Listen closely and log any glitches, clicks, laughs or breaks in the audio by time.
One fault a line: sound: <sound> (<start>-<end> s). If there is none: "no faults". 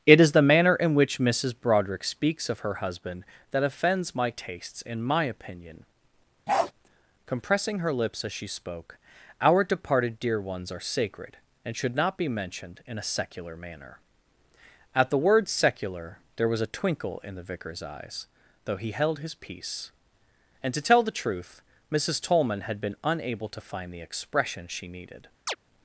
sound: bark (6.5-6.7 s)
sound: chirp (25.5-25.6 s)